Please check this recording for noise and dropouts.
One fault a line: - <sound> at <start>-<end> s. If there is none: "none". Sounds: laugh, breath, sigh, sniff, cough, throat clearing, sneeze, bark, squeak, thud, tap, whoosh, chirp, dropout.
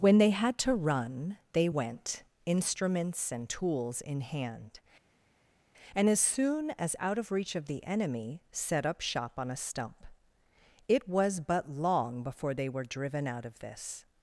none